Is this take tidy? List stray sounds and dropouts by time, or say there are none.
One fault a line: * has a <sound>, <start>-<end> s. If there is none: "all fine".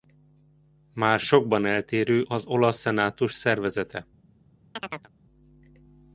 * has a chirp, 4.8-5.1 s